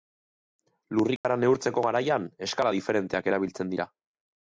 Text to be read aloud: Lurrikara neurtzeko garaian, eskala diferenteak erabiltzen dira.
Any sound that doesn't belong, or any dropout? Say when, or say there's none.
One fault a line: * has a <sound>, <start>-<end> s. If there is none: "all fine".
* has a dropout, 1.2-1.2 s